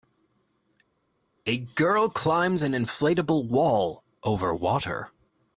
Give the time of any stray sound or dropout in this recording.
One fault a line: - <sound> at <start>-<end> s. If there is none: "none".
none